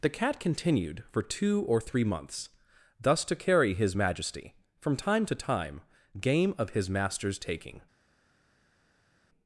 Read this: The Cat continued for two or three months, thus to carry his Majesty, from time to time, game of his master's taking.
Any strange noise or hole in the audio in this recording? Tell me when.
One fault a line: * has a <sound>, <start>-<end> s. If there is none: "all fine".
all fine